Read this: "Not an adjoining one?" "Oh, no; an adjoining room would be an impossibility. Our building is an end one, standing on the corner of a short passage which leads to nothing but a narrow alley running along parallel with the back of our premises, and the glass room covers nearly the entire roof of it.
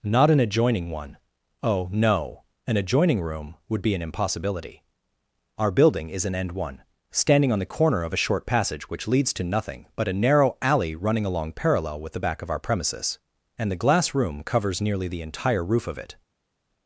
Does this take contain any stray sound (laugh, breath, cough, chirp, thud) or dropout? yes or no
no